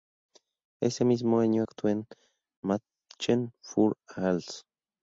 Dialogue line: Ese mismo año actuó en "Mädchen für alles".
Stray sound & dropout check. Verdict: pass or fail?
pass